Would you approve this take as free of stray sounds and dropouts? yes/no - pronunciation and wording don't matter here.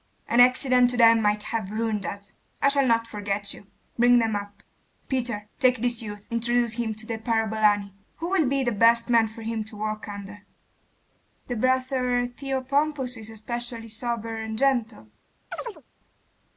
no